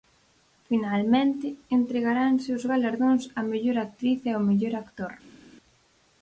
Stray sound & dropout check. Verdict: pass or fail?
pass